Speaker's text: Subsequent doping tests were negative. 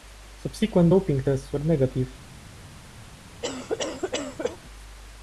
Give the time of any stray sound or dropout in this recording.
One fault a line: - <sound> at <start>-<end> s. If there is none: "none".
- cough at 3.4-4.6 s